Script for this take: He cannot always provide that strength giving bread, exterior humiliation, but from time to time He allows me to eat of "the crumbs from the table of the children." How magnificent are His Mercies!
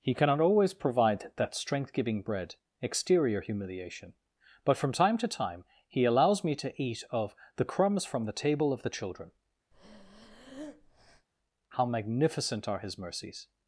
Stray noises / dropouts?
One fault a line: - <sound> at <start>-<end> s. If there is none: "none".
- breath at 9.7-11.3 s